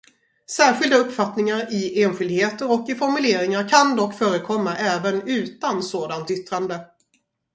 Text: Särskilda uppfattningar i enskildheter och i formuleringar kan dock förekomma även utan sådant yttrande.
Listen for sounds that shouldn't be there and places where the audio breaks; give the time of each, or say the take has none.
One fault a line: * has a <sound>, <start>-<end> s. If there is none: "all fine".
all fine